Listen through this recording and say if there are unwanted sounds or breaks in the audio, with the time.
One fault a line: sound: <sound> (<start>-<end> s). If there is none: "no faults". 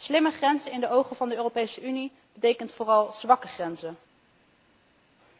no faults